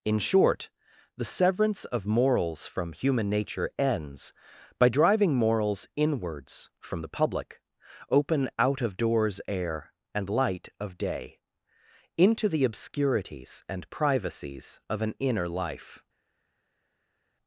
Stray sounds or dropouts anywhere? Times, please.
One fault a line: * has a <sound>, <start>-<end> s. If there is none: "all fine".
all fine